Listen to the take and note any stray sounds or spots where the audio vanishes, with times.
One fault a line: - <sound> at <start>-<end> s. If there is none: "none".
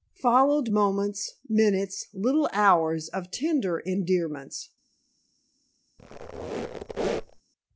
- squeak at 6.0-7.4 s